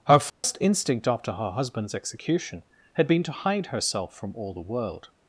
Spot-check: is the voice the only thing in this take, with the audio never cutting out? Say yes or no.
no